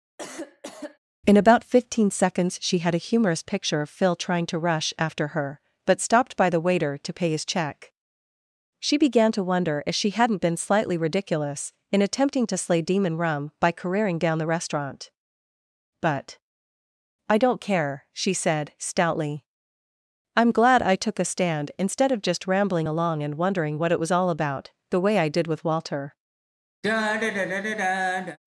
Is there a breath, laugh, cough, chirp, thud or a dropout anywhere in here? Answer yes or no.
yes